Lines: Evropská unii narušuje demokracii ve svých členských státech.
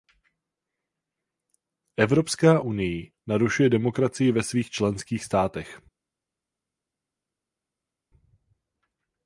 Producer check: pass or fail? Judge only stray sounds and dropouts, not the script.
pass